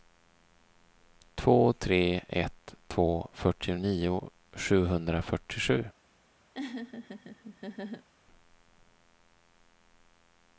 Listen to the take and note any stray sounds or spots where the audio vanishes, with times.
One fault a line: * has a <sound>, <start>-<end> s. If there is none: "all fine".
* has a laugh, 6.5-8.1 s